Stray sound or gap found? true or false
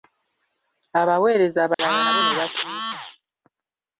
true